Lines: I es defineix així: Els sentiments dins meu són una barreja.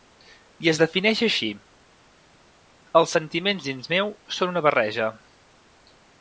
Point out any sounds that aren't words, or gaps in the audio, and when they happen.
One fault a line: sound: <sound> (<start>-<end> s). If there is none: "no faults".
no faults